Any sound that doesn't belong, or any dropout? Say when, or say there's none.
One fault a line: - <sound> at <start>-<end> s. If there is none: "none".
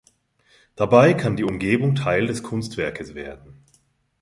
none